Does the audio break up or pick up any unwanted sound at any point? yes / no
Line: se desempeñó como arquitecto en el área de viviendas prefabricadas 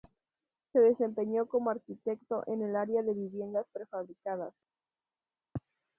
no